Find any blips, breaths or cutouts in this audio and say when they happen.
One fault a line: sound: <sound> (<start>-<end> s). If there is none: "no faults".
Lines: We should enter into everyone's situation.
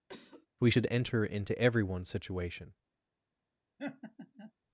sound: cough (0.1-0.5 s)
sound: laugh (3.8-4.5 s)